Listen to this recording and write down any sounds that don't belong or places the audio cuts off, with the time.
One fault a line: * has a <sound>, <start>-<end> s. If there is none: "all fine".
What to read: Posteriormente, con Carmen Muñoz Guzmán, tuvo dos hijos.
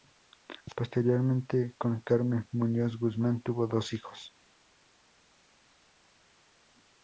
all fine